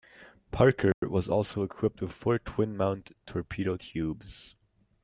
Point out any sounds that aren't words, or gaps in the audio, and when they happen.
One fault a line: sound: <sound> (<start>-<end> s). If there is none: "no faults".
sound: dropout (0.9-1.0 s)